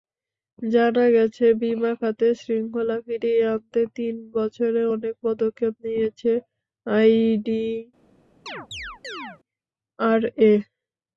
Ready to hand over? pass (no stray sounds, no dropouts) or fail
fail